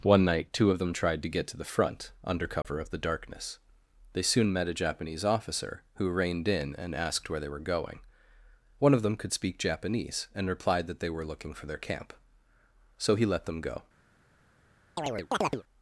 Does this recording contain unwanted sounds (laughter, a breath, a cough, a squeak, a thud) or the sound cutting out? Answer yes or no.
yes